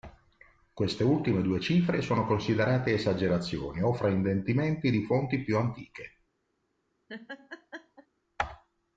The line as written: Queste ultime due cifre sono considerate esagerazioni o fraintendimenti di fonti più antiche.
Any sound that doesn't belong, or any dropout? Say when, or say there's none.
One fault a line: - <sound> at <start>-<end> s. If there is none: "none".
- laugh at 7.1-8.1 s